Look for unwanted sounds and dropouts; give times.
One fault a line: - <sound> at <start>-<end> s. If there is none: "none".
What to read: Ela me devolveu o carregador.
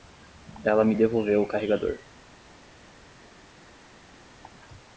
none